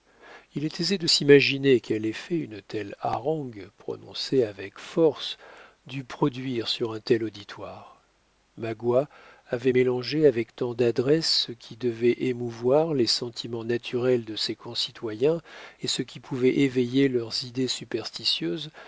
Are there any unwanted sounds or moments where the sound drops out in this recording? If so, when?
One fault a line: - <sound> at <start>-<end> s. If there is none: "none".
none